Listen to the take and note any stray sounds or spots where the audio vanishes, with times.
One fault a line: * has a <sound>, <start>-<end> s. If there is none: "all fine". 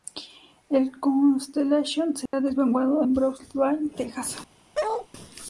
* has a dropout, 2.3-2.3 s
* has a bark, 4.7-5.1 s